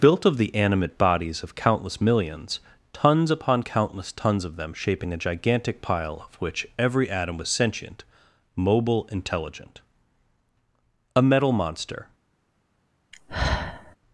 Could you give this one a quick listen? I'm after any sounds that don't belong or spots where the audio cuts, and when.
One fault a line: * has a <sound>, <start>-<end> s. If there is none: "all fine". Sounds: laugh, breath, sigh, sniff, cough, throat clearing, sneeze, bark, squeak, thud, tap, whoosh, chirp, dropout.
* has a sigh, 13.1-14.0 s